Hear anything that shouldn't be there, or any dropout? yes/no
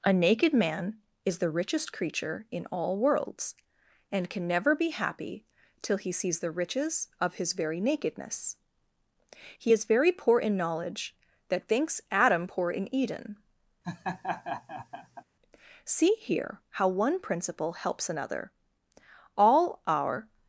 yes